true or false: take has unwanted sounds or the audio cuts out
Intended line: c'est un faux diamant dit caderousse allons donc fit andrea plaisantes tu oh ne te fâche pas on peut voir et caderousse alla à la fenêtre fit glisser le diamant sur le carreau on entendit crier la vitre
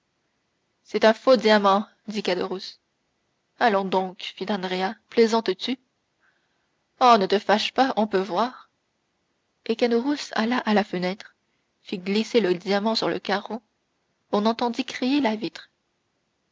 false